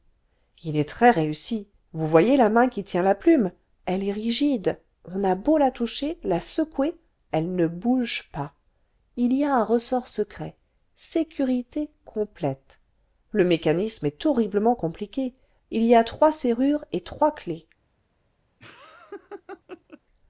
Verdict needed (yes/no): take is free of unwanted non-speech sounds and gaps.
no